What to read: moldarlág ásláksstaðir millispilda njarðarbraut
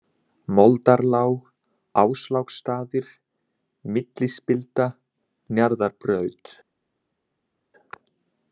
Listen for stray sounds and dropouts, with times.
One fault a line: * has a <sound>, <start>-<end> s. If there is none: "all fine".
all fine